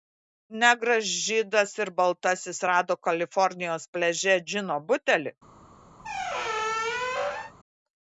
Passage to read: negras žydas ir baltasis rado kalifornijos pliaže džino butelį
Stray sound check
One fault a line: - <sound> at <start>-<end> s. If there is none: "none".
- squeak at 6.0-7.5 s